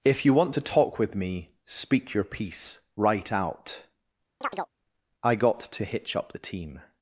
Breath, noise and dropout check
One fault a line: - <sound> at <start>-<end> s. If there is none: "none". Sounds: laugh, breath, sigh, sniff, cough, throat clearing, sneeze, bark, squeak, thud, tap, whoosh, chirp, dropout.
- chirp at 4.4-4.7 s